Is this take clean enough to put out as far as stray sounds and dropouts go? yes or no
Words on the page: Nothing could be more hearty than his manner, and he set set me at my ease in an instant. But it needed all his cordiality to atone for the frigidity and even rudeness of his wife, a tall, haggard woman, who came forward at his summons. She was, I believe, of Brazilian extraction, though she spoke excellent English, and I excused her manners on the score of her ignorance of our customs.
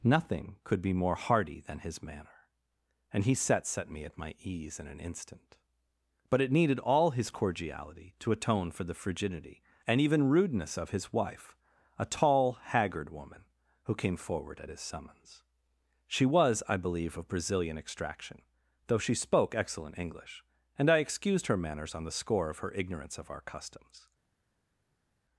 yes